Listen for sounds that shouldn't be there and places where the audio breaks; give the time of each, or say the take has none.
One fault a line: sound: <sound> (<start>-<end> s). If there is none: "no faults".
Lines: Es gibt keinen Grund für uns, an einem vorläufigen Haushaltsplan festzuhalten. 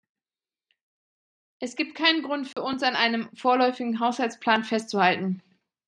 sound: dropout (2.5-2.6 s)